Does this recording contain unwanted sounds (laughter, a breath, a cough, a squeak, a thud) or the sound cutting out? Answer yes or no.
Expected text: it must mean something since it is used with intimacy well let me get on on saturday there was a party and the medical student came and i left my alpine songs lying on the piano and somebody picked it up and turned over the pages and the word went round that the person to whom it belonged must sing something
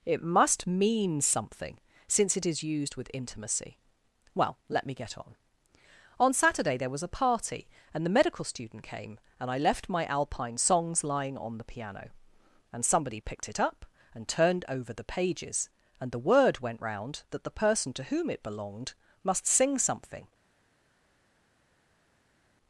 no